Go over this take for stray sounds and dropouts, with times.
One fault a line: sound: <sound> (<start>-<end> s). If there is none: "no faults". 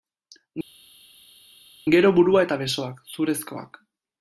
no faults